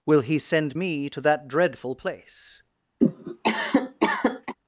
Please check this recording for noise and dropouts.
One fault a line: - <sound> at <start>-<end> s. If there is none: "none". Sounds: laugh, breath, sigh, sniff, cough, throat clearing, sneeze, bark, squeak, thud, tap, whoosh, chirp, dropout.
- cough at 3.0-4.6 s